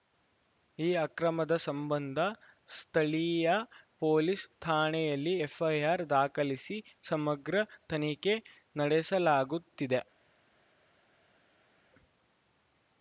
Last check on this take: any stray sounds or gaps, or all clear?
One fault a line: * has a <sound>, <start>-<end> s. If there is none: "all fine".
all fine